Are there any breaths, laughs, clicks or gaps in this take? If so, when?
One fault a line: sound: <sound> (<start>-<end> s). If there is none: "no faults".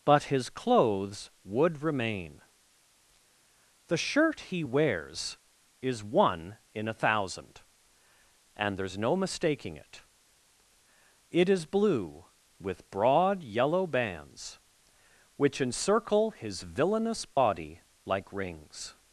sound: dropout (17.3-17.4 s)